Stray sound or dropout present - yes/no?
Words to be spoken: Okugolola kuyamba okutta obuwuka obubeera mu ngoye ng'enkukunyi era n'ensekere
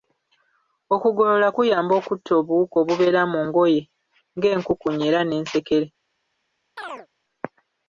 yes